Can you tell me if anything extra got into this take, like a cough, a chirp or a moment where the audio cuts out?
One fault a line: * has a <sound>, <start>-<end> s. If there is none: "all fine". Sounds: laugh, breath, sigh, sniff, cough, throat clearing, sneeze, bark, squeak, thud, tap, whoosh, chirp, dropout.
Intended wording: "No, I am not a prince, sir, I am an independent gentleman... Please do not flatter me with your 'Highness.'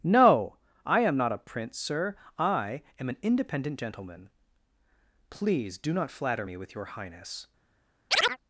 * has a chirp, 8.1-8.4 s